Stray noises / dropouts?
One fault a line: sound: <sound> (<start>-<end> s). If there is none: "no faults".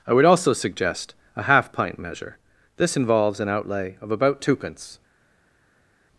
no faults